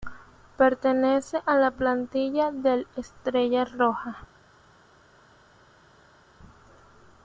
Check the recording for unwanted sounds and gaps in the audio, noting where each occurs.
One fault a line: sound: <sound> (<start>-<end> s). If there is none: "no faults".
no faults